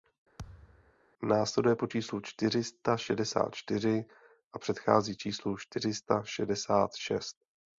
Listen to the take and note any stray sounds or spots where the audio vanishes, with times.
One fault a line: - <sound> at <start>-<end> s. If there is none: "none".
- thud at 0.4-0.9 s